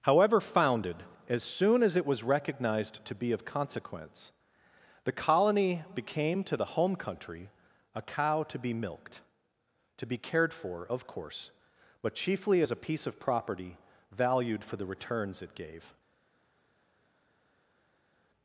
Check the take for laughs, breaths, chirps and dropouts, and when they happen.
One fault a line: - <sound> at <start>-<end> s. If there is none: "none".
none